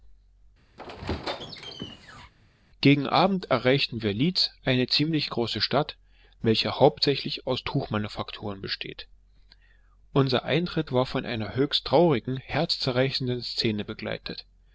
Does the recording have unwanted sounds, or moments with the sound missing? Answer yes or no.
yes